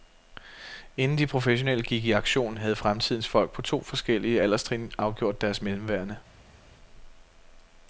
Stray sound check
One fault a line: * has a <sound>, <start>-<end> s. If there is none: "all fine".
all fine